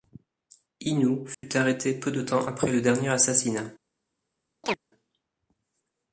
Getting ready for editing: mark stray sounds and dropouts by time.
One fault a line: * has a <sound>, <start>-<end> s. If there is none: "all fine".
* has a dropout, 1.3-1.4 s
* has a chirp, 4.6-4.8 s